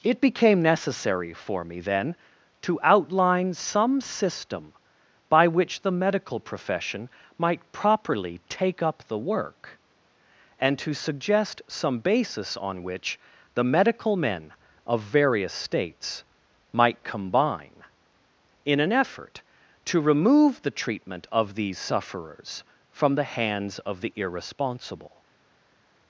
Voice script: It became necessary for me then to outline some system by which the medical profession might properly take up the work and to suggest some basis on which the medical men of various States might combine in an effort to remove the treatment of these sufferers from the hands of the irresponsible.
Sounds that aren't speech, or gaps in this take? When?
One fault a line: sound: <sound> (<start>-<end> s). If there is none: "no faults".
no faults